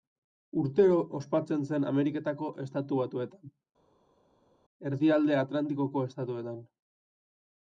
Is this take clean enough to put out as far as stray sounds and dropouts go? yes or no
yes